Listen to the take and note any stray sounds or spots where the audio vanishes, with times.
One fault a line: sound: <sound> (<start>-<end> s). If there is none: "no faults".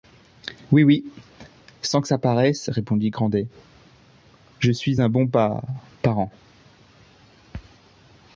no faults